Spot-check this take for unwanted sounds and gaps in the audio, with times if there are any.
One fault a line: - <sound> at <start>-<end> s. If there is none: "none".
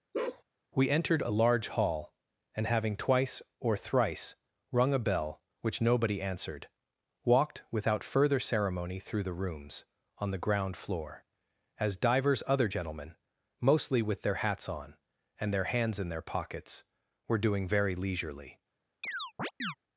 - bark at 0.1-0.4 s
- chirp at 19.0-19.7 s